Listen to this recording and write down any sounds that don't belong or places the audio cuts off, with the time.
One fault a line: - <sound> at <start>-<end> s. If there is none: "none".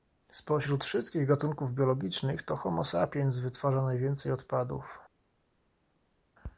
none